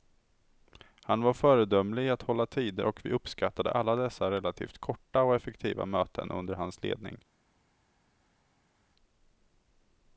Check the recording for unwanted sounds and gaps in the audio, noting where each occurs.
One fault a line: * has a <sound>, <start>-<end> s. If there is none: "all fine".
all fine